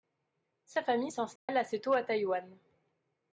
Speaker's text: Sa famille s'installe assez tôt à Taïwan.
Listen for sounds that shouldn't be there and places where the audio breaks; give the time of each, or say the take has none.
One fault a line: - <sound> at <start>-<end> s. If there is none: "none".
- dropout at 1.4-1.5 s